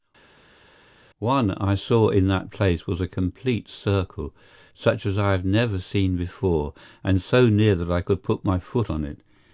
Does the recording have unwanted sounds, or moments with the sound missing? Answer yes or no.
no